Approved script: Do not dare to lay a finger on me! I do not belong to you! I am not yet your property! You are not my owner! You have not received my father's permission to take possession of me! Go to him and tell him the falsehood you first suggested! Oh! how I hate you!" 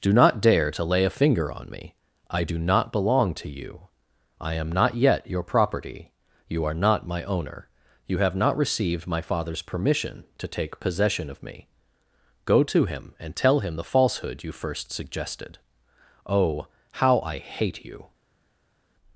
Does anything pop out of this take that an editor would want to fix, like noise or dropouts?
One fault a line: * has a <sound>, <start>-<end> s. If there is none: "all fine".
all fine